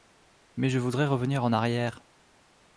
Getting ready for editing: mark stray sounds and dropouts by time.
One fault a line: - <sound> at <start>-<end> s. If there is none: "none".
none